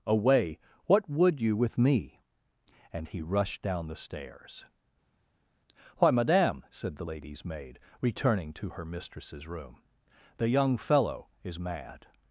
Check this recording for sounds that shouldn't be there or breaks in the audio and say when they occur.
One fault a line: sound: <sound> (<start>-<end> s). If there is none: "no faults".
no faults